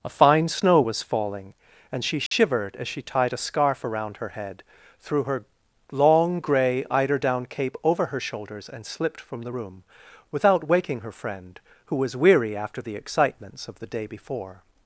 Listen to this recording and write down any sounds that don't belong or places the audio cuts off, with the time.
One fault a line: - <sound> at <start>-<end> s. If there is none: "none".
- dropout at 2.3-2.3 s